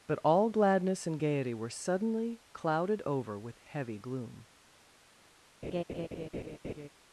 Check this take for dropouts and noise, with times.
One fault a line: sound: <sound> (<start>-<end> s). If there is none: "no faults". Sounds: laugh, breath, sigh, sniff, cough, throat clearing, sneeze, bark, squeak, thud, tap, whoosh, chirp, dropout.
sound: laugh (5.6-6.9 s)